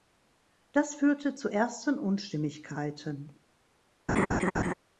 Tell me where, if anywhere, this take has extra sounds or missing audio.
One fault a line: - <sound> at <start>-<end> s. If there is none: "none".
- laugh at 4.1-4.7 s